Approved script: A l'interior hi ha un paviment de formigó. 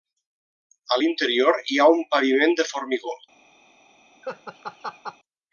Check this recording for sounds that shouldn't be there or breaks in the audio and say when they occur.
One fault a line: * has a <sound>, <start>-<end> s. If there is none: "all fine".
* has a laugh, 4.2-5.2 s